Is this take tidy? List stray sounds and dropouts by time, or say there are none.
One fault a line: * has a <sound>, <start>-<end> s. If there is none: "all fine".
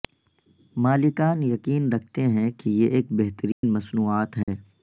* has a dropout, 3.5-3.6 s
* has a dropout, 4.4-4.5 s